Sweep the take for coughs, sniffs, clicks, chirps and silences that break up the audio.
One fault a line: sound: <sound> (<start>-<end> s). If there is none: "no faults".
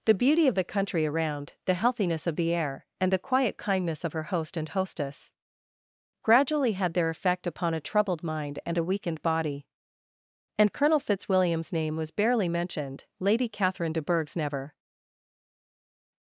no faults